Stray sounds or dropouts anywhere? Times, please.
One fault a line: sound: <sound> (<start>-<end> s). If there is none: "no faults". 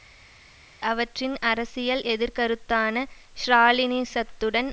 no faults